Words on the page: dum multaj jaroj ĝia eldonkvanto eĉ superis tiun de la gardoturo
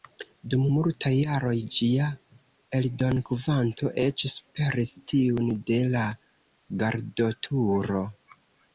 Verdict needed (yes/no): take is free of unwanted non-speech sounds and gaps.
yes